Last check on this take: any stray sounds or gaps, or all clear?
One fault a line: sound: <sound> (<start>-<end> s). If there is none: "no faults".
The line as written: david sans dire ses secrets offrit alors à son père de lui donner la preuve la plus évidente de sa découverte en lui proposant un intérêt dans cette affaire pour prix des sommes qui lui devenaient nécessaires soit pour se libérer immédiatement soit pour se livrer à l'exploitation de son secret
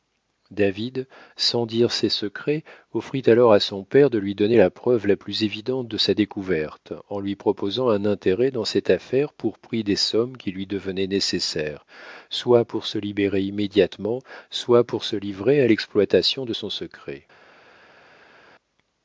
no faults